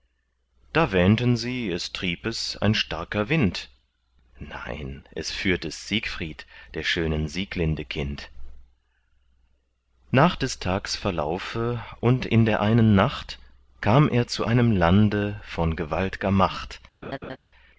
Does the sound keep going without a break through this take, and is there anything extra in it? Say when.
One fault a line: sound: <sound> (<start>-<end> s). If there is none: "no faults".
sound: laugh (17.0-17.4 s)